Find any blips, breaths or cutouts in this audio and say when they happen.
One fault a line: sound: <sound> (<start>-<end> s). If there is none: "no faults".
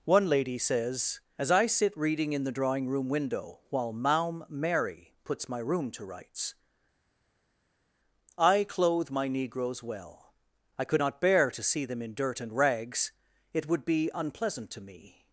no faults